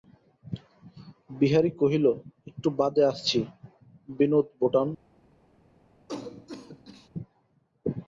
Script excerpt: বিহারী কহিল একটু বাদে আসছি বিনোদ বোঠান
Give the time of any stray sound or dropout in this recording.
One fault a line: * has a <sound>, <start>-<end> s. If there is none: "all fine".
* has a cough, 6.1-7.1 s